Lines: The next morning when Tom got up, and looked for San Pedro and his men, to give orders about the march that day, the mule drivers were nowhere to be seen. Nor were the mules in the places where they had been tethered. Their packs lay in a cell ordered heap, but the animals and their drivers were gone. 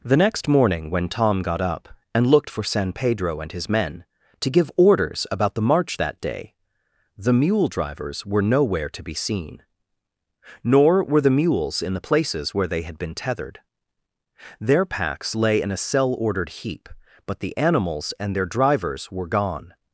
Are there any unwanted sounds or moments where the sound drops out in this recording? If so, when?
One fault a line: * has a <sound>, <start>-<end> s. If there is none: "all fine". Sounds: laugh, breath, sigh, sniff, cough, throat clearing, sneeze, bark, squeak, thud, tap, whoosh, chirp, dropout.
all fine